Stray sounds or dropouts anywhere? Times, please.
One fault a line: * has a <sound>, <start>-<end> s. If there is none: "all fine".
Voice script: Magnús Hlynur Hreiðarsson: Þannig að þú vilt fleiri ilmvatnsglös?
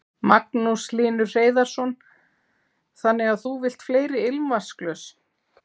all fine